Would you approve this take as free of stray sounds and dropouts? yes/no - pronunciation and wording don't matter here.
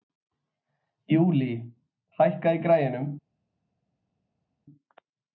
yes